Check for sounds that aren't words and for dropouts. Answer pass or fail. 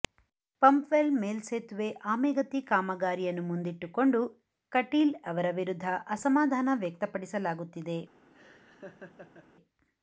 fail